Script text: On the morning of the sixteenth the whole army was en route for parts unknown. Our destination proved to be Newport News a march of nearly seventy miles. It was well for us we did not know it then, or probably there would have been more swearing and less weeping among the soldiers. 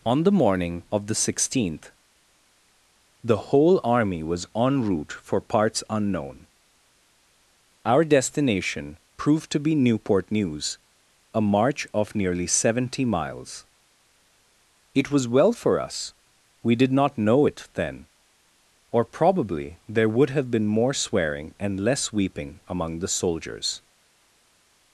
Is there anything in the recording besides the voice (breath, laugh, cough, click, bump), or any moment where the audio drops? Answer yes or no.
no